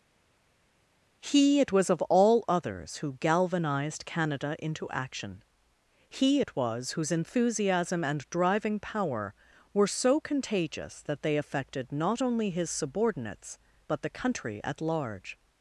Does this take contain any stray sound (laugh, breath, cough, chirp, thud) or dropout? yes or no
no